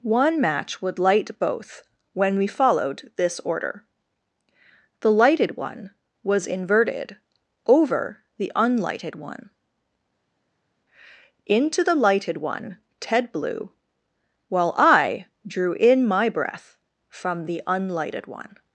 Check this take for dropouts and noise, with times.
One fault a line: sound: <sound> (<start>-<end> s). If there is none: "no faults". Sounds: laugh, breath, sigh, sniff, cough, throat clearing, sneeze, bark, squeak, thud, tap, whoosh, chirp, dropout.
no faults